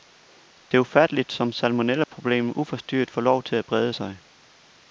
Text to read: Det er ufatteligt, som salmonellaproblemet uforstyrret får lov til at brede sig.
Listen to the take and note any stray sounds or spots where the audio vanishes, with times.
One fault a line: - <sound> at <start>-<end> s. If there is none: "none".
- dropout at 2.0-2.1 s